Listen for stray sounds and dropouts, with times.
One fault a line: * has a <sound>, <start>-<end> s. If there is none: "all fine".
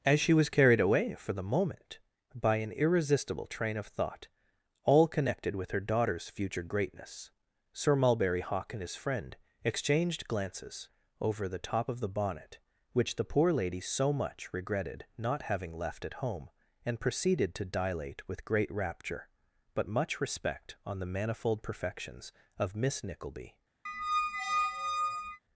* has a squeak, 23.9-25.4 s